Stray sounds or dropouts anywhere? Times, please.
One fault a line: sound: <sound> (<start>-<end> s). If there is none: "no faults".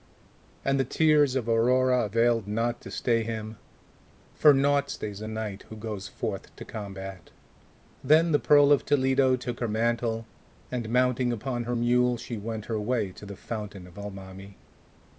no faults